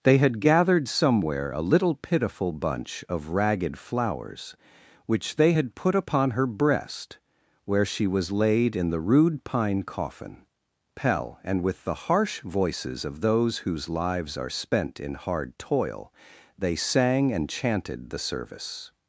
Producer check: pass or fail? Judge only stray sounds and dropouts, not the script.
pass